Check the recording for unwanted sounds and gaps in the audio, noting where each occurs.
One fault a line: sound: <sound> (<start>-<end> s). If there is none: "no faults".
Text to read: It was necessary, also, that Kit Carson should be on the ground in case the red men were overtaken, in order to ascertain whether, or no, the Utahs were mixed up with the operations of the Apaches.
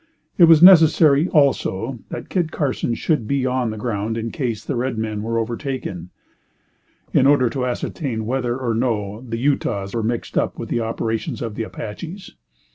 no faults